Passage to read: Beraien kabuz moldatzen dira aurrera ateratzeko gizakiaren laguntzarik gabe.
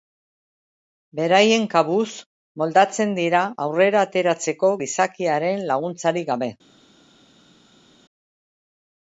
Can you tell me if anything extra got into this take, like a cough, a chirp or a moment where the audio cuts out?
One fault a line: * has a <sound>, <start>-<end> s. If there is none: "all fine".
all fine